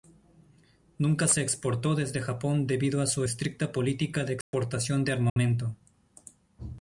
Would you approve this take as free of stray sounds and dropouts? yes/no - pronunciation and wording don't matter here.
no